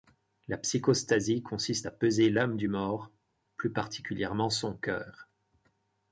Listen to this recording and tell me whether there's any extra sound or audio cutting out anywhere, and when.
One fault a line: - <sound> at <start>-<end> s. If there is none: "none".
none